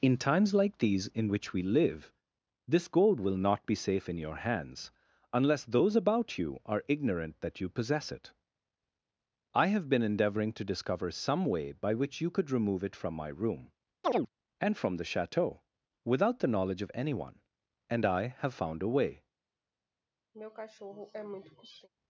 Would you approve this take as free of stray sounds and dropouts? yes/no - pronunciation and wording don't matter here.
no